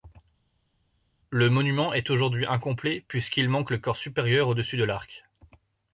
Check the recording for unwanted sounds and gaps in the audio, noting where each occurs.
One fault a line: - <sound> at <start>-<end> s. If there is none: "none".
none